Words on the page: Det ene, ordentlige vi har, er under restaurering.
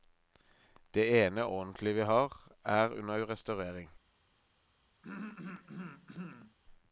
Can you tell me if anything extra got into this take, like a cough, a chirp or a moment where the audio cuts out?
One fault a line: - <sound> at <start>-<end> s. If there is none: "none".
- throat clearing at 5.0-6.6 s